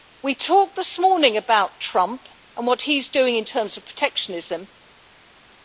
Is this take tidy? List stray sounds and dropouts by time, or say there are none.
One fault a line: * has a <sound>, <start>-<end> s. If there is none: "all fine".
all fine